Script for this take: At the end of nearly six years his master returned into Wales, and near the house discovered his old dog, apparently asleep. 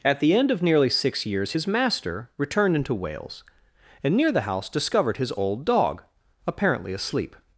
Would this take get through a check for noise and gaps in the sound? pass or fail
pass